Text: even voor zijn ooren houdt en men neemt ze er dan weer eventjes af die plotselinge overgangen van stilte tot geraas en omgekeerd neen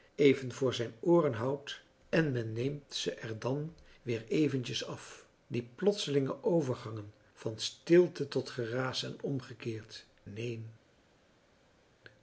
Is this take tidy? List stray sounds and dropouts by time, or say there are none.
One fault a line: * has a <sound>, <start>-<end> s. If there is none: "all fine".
all fine